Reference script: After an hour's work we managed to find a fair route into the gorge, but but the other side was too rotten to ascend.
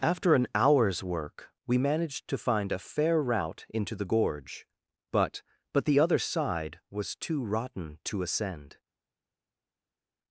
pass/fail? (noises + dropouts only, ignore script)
pass